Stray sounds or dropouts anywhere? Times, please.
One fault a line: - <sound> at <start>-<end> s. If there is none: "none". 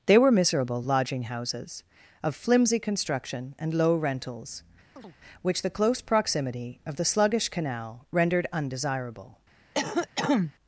- chirp at 5.0-5.2 s
- cough at 9.7-10.5 s